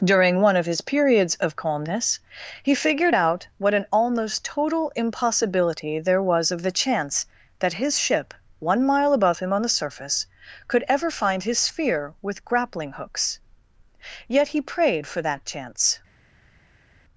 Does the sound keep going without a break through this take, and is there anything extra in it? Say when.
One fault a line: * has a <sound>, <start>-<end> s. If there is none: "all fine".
all fine